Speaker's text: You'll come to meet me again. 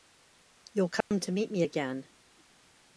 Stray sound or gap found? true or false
true